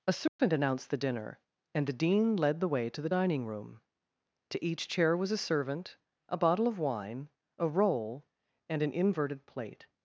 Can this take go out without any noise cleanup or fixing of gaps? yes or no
no